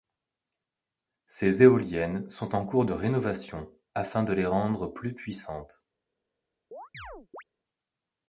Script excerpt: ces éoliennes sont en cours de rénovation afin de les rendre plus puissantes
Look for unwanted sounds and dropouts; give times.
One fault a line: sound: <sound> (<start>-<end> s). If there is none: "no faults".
sound: chirp (6.7-7.4 s)